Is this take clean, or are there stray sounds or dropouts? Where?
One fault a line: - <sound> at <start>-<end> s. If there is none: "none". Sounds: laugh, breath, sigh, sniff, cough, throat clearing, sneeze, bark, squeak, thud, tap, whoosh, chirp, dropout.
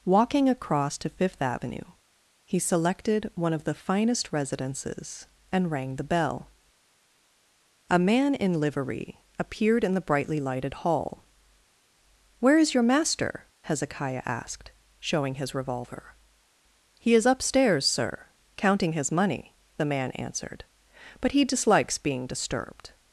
none